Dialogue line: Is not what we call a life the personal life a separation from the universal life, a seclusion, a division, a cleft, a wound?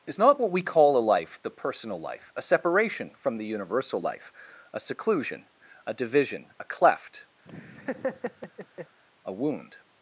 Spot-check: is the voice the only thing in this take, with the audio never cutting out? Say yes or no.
no